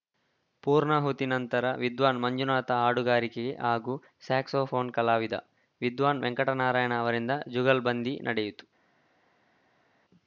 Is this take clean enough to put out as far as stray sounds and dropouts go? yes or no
yes